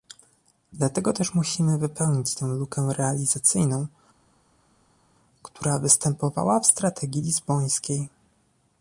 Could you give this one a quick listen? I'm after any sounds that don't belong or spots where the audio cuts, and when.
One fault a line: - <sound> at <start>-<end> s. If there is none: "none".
none